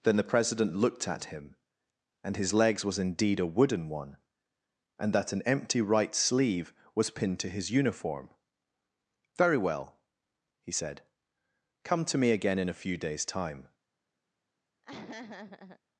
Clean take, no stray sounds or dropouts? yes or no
no